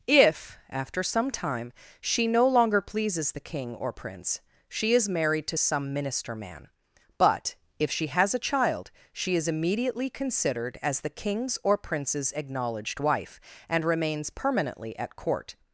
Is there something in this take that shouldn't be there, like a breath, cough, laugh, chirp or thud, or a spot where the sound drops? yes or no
no